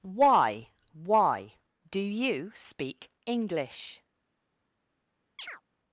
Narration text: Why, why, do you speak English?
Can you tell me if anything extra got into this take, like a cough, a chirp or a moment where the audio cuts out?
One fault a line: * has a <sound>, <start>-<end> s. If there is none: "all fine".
* has a chirp, 5.4-5.6 s